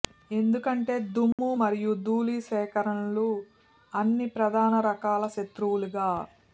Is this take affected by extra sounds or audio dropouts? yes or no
yes